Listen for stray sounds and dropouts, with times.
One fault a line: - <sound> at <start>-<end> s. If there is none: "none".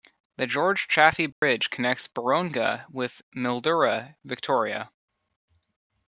- dropout at 1.3-1.4 s